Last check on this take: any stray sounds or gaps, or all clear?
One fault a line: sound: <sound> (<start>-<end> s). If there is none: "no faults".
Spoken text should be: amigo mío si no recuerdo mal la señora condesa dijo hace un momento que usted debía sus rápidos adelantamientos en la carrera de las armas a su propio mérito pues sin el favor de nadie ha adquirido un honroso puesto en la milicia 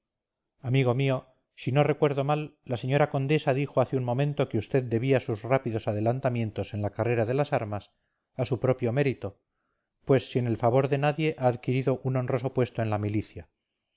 no faults